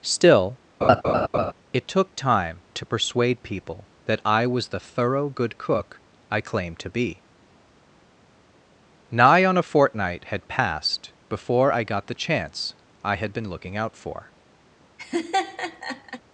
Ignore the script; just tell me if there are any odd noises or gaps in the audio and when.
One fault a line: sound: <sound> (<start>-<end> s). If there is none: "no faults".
sound: laugh (0.8-1.5 s)
sound: laugh (15.0-16.2 s)